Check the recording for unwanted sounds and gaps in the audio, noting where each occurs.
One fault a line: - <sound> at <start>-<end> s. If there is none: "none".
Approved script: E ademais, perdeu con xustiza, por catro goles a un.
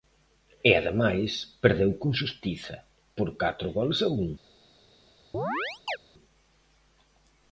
- chirp at 5.3-6.0 s